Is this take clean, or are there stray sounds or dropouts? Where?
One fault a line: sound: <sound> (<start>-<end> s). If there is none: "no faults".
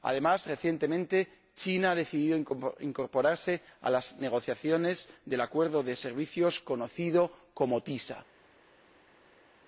no faults